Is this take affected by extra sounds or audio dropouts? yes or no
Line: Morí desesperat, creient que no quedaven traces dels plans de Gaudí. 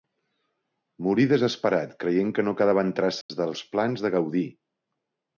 yes